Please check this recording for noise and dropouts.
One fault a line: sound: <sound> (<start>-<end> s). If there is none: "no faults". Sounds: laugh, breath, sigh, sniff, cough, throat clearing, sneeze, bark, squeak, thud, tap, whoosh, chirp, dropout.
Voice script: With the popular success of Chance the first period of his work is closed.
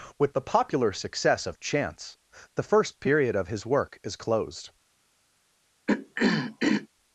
sound: throat clearing (5.9-6.9 s)